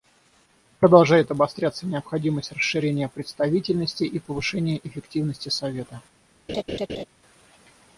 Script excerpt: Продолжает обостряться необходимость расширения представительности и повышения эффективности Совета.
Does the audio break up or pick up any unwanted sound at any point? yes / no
yes